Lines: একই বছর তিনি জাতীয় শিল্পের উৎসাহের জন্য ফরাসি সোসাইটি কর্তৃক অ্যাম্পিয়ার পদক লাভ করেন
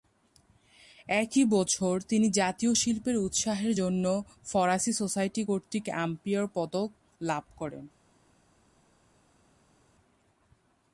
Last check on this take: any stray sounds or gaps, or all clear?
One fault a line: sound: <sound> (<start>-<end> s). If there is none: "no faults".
no faults